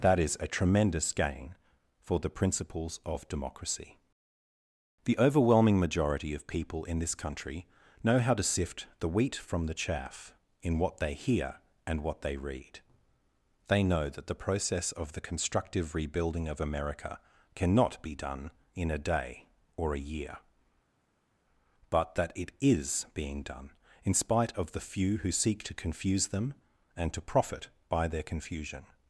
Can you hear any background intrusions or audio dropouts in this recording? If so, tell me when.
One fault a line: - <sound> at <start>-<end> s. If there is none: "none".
none